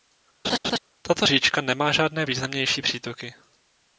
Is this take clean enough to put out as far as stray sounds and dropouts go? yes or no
no